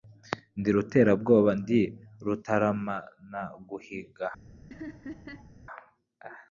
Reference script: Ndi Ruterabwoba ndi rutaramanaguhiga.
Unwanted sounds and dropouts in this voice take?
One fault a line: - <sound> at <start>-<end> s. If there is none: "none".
- laugh at 4.7-5.5 s